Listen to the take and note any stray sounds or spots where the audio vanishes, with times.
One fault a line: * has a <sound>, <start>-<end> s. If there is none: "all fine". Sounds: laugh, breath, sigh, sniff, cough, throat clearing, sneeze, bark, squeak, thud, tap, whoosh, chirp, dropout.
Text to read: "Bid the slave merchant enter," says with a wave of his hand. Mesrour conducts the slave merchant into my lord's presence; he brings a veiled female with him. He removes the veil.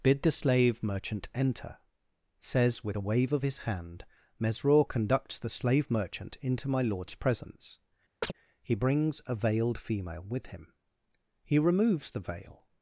* has a chirp, 8.2-8.3 s